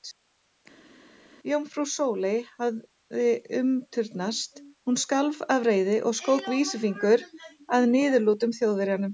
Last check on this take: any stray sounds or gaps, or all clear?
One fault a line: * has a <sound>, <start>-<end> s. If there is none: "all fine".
all fine